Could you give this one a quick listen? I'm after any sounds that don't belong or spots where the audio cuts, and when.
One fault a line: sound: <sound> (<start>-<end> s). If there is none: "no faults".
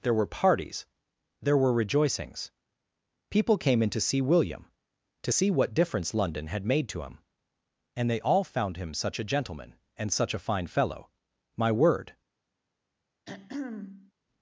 sound: throat clearing (13.3-14.1 s)